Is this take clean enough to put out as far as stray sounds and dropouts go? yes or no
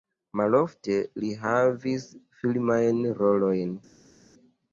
yes